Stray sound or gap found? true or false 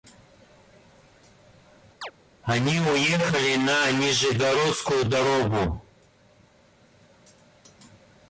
true